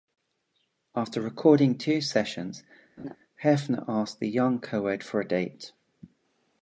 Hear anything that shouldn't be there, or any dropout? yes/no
yes